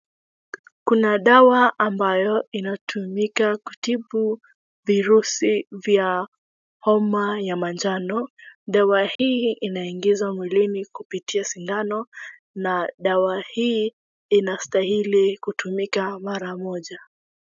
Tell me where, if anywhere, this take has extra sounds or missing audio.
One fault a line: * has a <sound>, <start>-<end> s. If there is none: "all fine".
* has a dropout, 9.2-9.2 s